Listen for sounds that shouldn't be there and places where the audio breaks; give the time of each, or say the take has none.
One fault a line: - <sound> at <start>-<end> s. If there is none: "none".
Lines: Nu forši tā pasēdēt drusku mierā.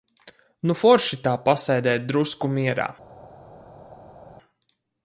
none